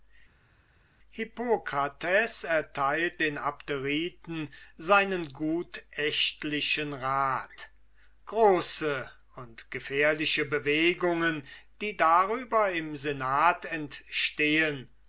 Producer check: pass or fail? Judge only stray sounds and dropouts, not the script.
pass